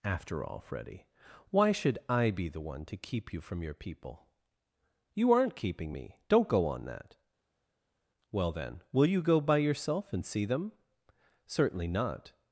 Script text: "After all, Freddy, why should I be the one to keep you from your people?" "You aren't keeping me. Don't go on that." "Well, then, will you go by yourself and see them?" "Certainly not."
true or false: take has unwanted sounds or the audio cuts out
false